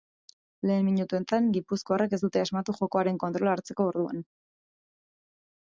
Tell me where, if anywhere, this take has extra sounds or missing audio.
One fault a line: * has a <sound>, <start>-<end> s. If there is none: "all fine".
all fine